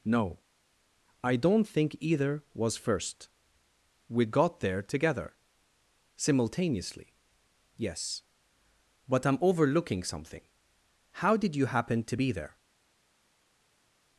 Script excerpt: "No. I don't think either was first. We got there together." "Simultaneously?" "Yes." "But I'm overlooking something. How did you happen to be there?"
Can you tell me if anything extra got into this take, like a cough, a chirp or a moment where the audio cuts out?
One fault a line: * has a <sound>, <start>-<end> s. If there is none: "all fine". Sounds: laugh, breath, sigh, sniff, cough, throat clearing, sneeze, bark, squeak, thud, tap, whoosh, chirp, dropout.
all fine